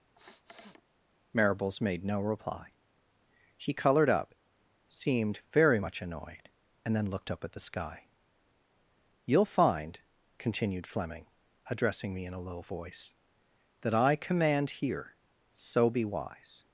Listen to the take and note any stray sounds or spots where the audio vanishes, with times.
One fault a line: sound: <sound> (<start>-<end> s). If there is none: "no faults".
sound: sniff (0.2-0.8 s)